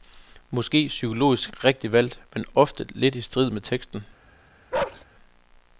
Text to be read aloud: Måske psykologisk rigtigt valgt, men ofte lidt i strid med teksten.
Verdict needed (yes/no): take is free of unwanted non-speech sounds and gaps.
no